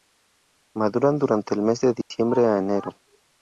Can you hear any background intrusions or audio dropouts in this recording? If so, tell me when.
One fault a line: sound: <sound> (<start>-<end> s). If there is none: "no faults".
sound: dropout (2.0-2.1 s)